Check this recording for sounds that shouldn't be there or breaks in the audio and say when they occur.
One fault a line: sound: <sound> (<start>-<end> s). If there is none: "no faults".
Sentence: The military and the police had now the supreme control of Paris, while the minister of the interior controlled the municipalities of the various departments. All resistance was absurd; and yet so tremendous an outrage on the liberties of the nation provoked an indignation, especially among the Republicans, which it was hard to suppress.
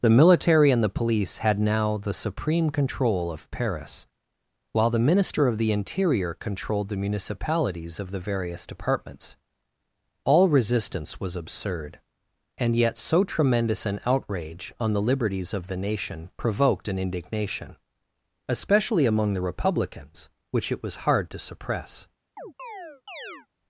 sound: chirp (22.4-23.5 s)